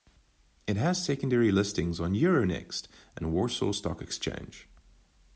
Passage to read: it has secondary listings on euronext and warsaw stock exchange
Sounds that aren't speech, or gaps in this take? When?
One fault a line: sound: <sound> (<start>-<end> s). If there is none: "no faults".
no faults